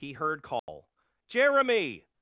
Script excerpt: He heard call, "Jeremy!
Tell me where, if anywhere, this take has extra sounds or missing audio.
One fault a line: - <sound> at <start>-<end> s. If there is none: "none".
- dropout at 0.6-0.7 s